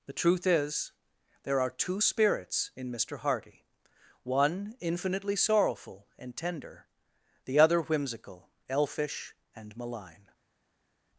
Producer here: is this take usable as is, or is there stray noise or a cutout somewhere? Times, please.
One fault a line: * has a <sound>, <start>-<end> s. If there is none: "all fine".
all fine